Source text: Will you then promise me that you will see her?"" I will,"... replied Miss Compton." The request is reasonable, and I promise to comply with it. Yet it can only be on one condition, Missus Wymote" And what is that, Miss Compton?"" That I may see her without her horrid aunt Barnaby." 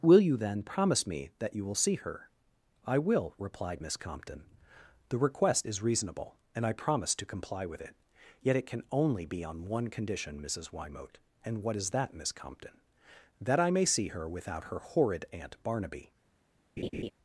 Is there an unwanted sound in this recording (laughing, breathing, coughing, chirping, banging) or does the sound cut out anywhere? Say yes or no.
yes